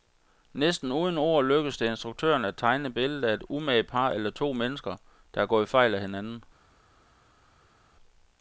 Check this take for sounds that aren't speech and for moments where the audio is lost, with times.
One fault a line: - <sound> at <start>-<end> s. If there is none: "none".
none